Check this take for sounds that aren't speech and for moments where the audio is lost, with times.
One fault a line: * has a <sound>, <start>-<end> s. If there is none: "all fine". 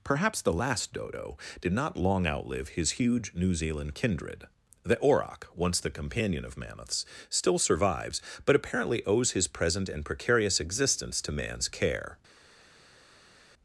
all fine